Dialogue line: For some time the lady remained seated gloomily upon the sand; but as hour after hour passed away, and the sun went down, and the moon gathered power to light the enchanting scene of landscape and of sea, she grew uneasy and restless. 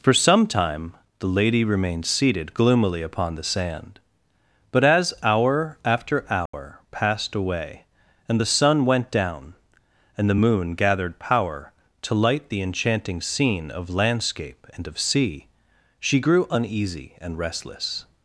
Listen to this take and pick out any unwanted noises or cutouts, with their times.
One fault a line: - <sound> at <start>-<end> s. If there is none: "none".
- dropout at 6.5-6.5 s